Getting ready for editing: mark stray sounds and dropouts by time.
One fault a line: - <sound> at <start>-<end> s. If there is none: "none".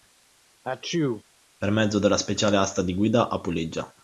- sneeze at 0.6-1.2 s